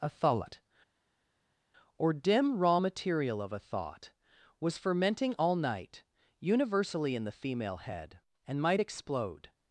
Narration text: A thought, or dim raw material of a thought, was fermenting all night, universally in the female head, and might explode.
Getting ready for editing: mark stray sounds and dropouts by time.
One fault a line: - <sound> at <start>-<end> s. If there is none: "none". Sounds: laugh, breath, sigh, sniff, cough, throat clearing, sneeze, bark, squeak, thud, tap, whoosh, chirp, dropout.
none